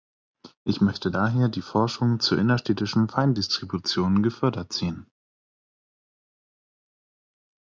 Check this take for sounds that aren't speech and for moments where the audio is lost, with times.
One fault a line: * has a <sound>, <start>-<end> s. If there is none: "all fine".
all fine